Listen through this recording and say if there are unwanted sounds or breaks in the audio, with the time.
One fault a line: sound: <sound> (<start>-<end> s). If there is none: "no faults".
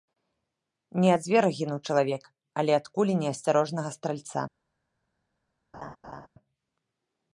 sound: laugh (5.7-6.3 s)